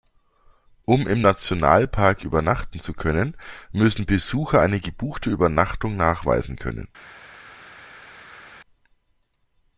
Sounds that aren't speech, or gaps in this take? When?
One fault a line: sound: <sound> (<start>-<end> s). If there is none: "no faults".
no faults